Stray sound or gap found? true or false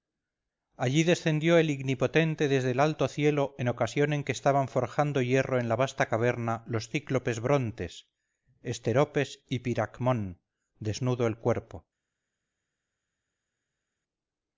false